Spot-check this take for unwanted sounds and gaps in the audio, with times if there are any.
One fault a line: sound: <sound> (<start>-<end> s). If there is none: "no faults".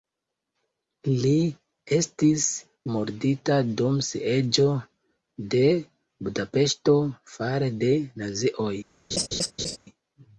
sound: laugh (9.1-9.8 s)